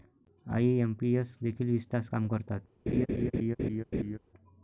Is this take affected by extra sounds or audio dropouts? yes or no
yes